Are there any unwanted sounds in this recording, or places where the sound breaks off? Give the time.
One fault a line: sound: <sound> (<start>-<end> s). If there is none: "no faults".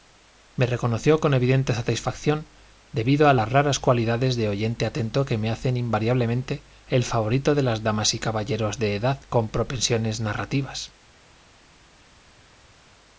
no faults